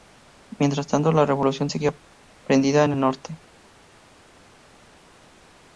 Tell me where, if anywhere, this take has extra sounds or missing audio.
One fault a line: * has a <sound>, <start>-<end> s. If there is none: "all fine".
all fine